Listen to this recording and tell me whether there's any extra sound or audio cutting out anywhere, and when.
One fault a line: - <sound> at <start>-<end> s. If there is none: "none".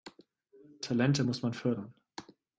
none